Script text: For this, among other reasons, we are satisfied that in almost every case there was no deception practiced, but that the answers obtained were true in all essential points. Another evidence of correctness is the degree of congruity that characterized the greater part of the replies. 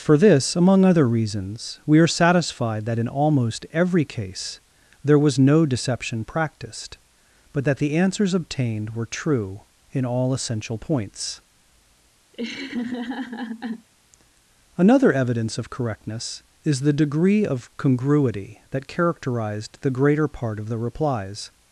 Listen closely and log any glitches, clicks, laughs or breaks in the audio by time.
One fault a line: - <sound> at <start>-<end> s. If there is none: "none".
- laugh at 12.3-13.9 s